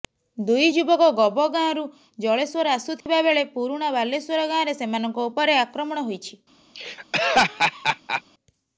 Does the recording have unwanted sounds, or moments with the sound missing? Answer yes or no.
yes